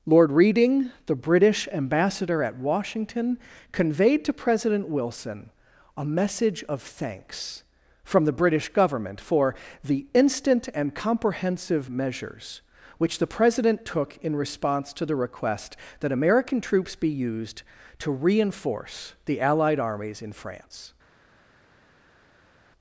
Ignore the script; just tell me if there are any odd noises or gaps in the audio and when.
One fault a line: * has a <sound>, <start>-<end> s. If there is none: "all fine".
all fine